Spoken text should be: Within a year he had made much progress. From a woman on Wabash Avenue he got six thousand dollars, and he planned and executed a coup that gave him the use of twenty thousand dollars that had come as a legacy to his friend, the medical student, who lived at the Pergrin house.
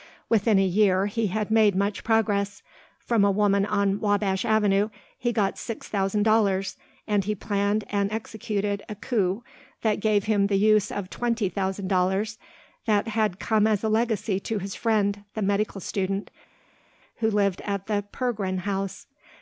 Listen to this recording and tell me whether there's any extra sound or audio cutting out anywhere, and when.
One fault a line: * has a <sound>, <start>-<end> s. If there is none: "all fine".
all fine